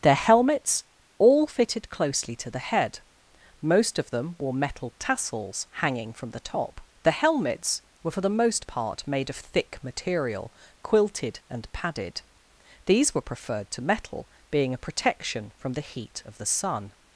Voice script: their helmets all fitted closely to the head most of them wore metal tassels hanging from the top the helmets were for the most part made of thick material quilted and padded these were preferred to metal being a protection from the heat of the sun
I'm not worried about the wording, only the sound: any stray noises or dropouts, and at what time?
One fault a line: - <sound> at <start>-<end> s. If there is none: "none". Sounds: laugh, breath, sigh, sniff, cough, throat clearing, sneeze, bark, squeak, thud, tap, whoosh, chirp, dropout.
none